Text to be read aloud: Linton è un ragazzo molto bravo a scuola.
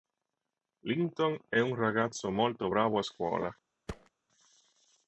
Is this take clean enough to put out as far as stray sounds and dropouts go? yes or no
no